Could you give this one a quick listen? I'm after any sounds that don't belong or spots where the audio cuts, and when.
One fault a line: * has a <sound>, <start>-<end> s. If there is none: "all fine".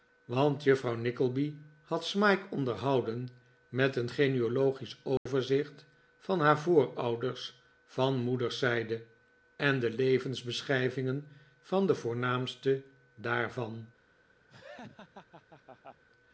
* has a dropout, 5.2-5.3 s
* has a laugh, 14.5-16.0 s